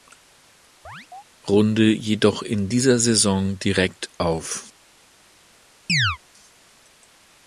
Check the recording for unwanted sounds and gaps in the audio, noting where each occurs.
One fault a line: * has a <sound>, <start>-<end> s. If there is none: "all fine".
* has a chirp, 0.8-1.2 s
* has a chirp, 5.9-6.2 s